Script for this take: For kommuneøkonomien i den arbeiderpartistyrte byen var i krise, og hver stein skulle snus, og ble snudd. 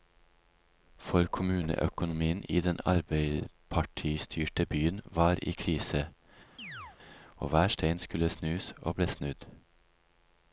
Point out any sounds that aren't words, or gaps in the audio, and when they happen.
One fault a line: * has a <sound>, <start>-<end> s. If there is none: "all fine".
* has a chirp, 6.6-7.0 s